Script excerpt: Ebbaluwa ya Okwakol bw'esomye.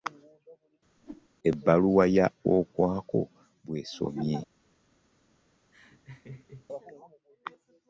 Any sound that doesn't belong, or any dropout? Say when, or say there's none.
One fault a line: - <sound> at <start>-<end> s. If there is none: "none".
- whoosh at 1.0-1.3 s
- laugh at 5.7-6.7 s